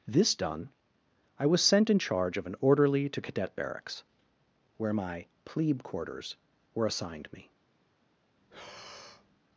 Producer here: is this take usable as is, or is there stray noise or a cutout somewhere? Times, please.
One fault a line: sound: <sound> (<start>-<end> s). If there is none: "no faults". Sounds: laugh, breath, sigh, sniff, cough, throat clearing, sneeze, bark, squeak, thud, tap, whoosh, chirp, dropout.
sound: breath (8.4-9.4 s)